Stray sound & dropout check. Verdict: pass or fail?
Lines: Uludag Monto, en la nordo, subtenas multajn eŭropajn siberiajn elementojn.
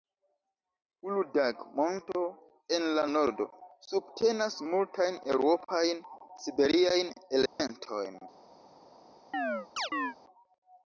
fail